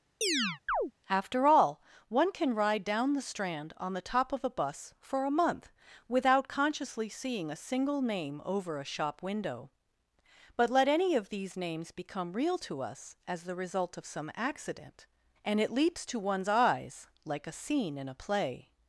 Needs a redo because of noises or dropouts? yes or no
yes